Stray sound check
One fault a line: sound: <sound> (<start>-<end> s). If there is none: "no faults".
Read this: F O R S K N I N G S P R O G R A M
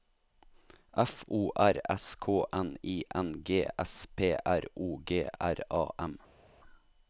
no faults